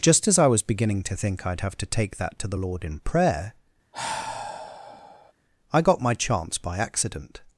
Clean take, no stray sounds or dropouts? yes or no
no